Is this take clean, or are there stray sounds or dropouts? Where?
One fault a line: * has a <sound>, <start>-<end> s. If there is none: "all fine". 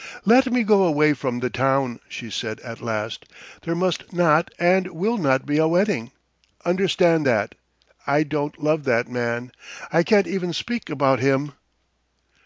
all fine